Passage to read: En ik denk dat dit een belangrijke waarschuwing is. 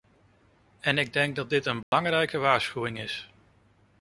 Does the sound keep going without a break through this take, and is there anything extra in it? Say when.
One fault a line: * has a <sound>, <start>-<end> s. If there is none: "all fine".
* has a dropout, 1.8-1.9 s